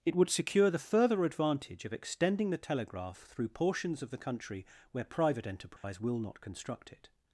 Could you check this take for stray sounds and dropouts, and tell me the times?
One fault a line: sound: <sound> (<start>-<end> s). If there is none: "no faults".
sound: dropout (5.8-5.8 s)